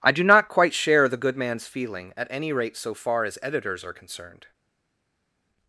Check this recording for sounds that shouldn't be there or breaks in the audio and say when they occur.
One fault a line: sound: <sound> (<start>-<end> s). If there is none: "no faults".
no faults